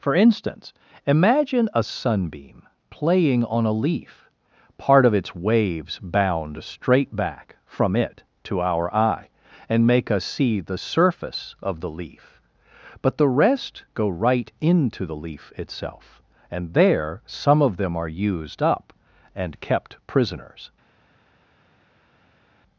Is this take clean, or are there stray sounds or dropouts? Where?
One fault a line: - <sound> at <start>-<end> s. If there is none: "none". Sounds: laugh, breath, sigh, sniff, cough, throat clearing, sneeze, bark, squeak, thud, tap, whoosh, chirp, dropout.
none